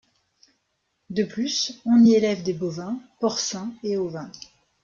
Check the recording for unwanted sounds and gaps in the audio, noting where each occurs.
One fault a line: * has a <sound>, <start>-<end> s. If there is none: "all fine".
all fine